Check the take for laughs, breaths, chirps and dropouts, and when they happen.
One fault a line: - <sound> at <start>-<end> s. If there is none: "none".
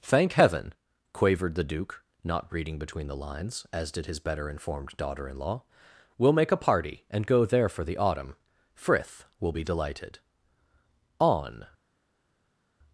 none